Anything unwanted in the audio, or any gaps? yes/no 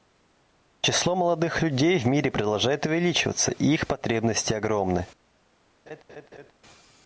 yes